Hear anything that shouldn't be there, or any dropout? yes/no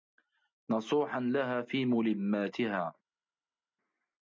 no